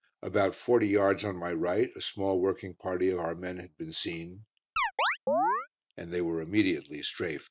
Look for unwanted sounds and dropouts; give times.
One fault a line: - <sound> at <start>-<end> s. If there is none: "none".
- chirp at 4.8-5.7 s